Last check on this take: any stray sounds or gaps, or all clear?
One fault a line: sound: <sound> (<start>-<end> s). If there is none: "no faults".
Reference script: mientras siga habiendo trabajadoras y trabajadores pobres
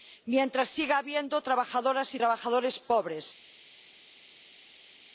no faults